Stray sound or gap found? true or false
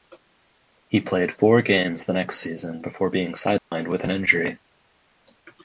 true